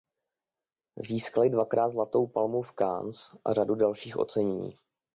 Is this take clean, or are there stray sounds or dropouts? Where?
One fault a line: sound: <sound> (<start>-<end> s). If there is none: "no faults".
no faults